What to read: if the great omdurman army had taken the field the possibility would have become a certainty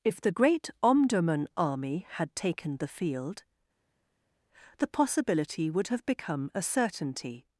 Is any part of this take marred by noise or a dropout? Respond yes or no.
no